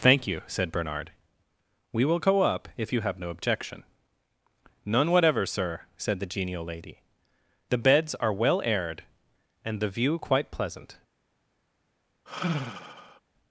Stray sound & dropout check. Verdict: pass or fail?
fail